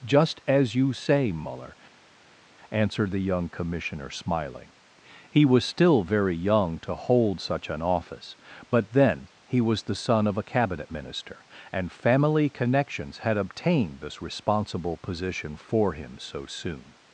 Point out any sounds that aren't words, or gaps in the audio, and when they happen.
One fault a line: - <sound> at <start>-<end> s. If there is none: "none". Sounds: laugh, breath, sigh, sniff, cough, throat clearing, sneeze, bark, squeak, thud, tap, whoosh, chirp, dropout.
none